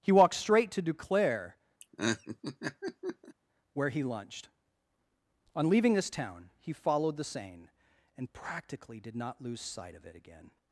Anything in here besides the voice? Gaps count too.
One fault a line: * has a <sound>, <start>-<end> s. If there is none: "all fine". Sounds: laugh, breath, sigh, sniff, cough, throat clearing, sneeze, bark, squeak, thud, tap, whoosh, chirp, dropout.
* has a laugh, 1.8-3.4 s